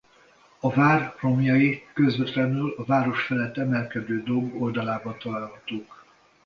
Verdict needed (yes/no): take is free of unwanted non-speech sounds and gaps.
yes